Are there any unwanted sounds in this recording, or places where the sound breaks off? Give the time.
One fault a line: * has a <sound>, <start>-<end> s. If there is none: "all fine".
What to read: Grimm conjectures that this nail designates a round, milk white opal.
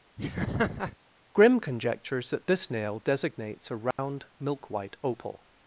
* has a laugh, 0.2-1.0 s
* has a dropout, 3.9-4.0 s